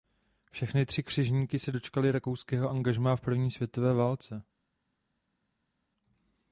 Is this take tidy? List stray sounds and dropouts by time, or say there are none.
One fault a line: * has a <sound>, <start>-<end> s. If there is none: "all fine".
all fine